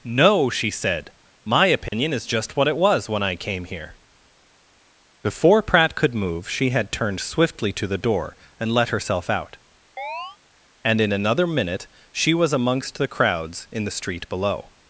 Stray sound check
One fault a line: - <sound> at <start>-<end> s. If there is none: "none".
- dropout at 1.9-1.9 s
- chirp at 10.0-10.4 s